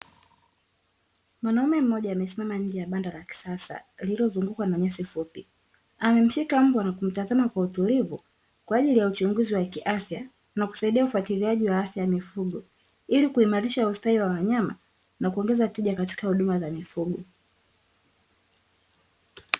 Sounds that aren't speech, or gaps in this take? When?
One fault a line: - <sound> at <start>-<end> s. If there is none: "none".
none